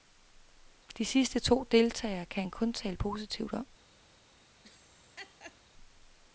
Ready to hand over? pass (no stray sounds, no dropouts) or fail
fail